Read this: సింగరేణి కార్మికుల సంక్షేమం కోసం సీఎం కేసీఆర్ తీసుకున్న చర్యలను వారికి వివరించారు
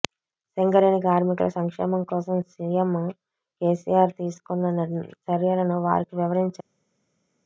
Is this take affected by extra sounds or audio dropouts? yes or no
no